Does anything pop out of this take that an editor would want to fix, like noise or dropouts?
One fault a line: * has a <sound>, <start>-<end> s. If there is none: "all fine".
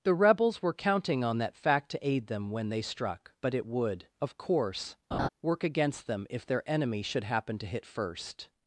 * has a laugh, 5.1-5.3 s